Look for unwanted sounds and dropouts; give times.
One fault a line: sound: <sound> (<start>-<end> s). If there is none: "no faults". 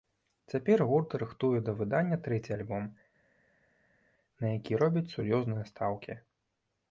no faults